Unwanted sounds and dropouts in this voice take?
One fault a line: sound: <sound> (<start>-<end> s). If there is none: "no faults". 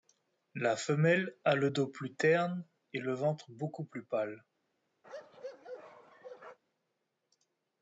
sound: bark (5.0-6.6 s)